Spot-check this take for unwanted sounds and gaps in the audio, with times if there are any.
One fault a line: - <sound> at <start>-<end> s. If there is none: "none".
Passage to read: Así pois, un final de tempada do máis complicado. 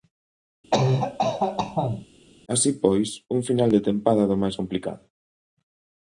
- cough at 0.7-2.1 s